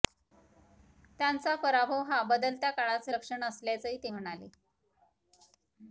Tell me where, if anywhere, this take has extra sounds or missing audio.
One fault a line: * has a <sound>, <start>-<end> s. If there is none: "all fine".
all fine